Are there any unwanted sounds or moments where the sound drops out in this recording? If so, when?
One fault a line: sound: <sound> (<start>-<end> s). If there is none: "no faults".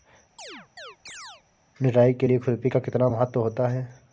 sound: chirp (0.4-1.4 s)